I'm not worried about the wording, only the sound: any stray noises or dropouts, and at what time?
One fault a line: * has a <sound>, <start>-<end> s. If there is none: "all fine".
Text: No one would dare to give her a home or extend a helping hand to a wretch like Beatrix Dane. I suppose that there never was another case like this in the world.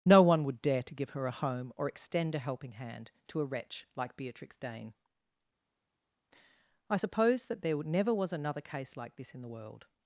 all fine